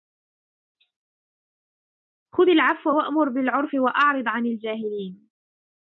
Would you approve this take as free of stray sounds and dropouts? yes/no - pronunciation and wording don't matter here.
yes